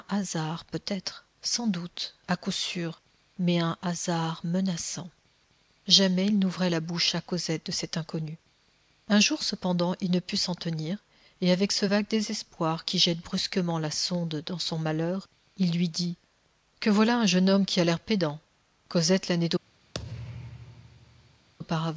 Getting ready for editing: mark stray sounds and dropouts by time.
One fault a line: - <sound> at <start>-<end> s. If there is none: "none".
- thud at 19.9-21.5 s